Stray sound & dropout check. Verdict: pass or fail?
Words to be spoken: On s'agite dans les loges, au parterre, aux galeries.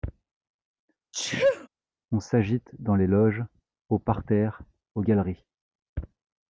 fail